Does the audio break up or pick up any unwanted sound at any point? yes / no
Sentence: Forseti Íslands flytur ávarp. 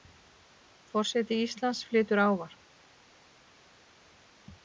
no